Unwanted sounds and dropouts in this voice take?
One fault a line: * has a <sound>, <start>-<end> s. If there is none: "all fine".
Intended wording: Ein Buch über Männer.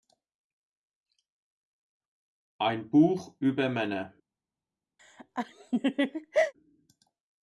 * has a laugh, 5.0-6.5 s